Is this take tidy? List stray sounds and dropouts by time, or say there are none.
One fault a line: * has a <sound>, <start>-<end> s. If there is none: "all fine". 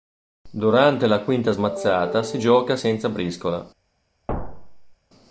* has a thud, 4.3-4.9 s